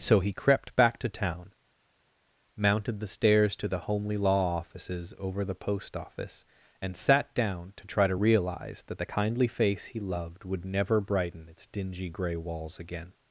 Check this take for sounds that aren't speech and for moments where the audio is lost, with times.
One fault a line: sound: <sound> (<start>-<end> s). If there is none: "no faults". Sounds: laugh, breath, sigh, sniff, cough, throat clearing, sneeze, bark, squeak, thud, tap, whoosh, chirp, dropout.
no faults